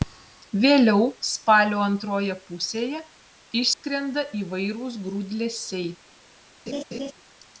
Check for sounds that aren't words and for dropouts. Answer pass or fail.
fail